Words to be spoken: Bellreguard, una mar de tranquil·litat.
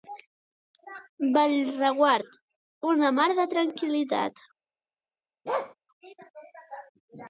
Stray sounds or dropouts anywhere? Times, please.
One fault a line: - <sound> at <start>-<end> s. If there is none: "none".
- bark at 5.4-5.7 s